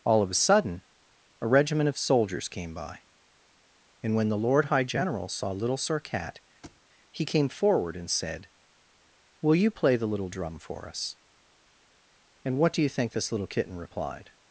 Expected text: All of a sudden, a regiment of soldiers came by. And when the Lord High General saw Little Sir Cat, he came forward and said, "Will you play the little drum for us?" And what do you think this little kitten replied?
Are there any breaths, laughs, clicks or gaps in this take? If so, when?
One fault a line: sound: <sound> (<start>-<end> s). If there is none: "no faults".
sound: thud (6.6-6.8 s)